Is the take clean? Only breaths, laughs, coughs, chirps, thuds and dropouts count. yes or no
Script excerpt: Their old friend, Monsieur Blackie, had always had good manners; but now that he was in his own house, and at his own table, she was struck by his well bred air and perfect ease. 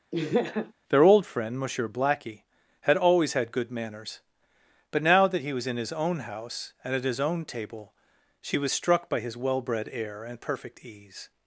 no